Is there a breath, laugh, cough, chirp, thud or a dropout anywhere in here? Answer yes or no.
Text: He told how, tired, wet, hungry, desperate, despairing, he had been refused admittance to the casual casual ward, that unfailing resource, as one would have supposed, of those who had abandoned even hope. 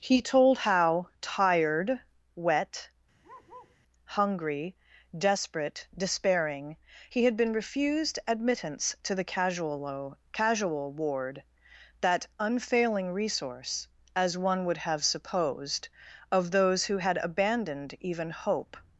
yes